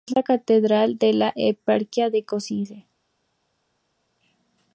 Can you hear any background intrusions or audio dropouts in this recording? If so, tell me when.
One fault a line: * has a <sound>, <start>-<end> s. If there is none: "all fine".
all fine